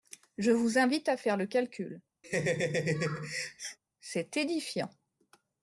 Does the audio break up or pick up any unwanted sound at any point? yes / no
yes